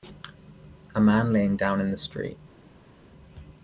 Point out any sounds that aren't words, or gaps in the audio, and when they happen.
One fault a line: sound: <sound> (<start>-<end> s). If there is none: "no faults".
no faults